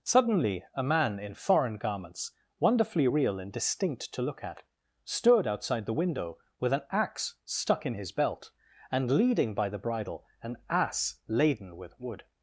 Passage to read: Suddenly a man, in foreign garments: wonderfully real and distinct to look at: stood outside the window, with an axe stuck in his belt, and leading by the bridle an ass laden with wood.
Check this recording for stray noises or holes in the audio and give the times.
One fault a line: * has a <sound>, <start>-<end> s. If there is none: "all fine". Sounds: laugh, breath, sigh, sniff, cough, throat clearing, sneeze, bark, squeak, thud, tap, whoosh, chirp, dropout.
all fine